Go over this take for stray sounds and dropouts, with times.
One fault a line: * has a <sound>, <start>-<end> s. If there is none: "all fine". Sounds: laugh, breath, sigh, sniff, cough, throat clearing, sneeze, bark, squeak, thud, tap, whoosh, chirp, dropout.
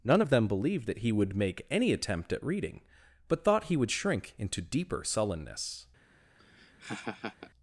* has a laugh, 6.4-7.5 s